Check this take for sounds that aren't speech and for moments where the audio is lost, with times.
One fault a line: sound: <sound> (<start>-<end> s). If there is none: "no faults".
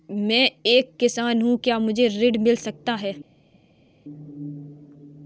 no faults